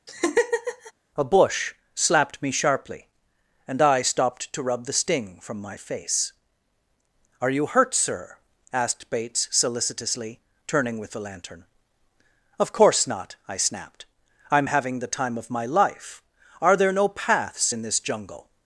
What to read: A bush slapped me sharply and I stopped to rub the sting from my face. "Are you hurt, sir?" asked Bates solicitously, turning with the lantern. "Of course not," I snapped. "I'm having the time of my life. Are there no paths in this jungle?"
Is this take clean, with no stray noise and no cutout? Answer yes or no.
no